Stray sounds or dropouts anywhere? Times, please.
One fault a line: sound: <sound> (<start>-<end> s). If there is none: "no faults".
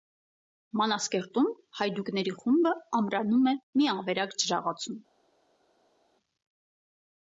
no faults